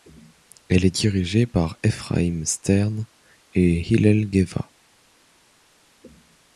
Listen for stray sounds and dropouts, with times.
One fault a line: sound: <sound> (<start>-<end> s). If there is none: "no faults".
no faults